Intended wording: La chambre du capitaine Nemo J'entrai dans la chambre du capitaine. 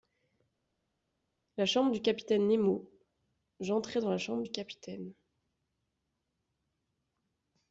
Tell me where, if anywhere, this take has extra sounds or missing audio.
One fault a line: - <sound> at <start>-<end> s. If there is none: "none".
none